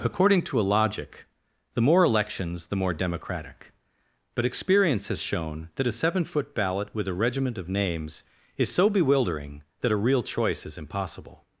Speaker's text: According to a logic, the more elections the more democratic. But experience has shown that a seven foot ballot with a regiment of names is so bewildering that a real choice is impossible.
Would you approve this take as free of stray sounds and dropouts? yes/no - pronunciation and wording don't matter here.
yes